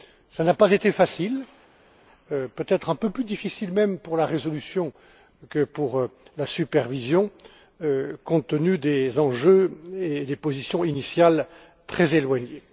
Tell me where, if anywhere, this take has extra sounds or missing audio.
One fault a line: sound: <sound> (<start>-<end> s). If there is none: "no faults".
no faults